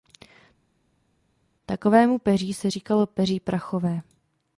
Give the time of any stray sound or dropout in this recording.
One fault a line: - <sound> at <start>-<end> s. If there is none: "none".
none